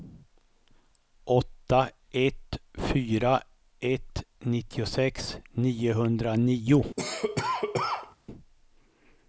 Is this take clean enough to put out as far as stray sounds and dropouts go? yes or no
no